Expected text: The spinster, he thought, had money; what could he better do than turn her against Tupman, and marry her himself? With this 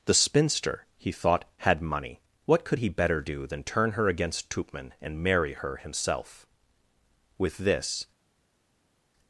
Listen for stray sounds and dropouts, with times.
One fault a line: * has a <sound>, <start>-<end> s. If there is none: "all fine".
all fine